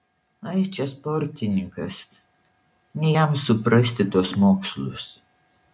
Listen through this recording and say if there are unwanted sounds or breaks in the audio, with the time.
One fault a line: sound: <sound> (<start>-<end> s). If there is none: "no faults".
no faults